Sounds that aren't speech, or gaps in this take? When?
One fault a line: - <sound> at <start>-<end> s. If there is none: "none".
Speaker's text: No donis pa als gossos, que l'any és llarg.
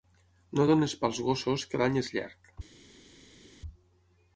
none